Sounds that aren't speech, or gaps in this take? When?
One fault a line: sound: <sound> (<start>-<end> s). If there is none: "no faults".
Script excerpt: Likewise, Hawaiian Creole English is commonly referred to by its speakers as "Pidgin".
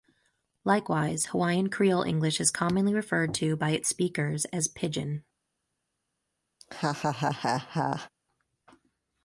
sound: laugh (6.6-8.1 s)